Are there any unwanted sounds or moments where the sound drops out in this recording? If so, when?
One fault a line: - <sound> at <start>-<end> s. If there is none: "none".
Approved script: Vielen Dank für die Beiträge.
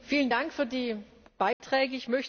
- dropout at 1.5-1.6 s